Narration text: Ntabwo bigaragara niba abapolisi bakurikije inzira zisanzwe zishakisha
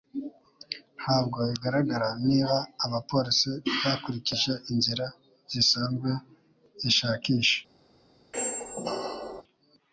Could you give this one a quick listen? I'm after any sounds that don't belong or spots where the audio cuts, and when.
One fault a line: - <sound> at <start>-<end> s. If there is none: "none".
- squeak at 8.3-9.4 s